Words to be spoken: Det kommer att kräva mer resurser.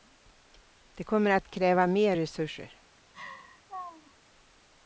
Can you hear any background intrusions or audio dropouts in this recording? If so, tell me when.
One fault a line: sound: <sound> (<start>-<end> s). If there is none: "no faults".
sound: laugh (3.1-4.1 s)